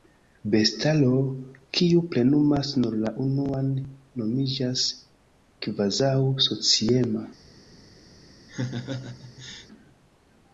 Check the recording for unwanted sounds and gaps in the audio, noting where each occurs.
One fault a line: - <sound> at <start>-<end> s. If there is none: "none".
- laugh at 8.5-9.7 s